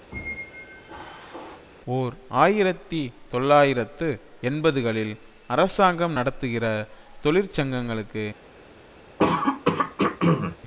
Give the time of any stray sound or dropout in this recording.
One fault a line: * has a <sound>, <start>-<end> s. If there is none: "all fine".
* has a squeak, 0.1-1.7 s
* has a throat clearing, 9.2-10.6 s